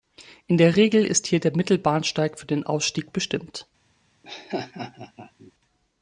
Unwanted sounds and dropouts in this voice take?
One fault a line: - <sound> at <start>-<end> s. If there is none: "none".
- laugh at 4.2-5.5 s